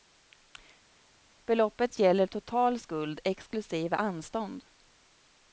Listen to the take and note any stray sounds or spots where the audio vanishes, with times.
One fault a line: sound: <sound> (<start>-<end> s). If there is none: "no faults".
no faults